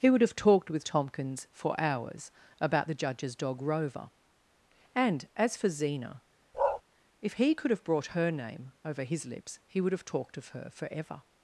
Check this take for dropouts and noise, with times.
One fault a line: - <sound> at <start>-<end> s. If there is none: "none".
- bark at 6.5-6.8 s